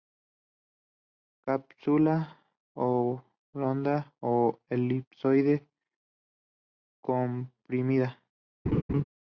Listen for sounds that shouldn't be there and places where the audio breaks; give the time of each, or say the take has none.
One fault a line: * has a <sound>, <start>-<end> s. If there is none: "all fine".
* has a laugh, 8.7-9.0 s